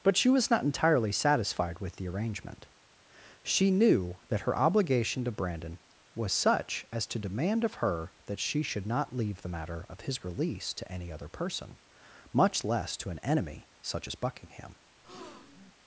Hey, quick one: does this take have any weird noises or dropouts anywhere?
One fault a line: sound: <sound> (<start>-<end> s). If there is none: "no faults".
sound: breath (15.0-15.7 s)